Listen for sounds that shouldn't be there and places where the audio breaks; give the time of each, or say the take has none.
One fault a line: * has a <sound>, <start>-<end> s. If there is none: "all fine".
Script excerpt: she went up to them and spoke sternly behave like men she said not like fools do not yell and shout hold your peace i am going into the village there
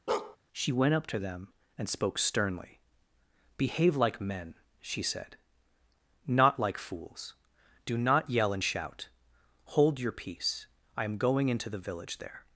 * has a bark, 0.1-0.4 s